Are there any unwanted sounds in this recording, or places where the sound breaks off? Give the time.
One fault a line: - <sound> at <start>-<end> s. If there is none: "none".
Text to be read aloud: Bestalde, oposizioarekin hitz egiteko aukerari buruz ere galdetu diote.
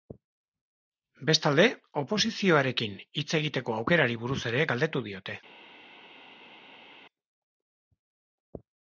none